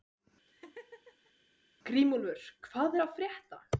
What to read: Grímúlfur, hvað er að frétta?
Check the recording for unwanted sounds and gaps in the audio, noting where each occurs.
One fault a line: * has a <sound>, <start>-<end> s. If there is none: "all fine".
* has a laugh, 0.5-1.3 s